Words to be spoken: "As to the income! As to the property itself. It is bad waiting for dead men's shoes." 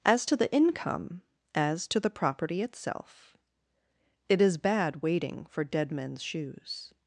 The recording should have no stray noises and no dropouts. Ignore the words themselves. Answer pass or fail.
pass